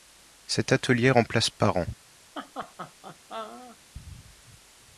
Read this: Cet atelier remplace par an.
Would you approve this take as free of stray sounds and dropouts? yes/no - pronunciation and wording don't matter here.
no